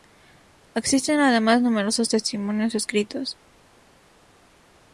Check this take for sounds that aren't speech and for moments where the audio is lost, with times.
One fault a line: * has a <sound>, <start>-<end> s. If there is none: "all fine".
all fine